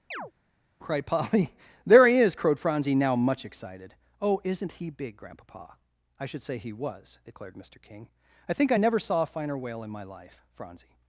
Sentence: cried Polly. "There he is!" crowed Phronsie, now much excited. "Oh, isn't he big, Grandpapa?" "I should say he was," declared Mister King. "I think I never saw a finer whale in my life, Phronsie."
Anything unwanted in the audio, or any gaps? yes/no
yes